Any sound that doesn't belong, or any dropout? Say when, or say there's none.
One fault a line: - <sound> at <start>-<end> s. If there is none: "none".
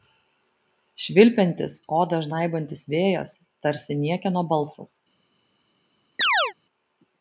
- chirp at 6.2-6.5 s